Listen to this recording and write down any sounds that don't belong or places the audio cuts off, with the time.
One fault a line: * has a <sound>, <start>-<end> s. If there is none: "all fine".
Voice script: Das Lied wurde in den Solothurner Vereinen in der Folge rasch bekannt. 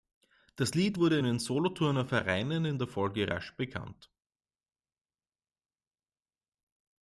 all fine